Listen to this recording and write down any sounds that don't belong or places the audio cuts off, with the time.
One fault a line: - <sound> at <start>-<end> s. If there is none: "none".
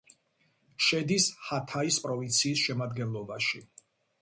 none